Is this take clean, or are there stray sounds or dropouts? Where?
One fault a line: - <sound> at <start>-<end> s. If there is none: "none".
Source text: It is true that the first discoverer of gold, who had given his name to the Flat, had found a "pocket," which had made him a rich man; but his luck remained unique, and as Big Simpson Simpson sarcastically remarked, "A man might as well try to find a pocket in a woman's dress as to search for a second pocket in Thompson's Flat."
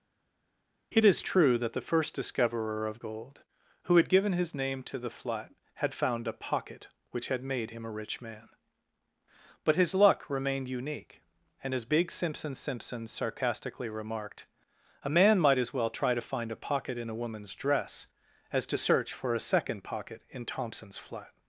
none